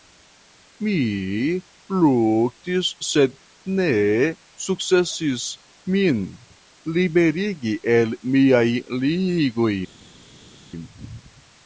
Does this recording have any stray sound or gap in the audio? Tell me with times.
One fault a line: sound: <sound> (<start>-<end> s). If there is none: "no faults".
no faults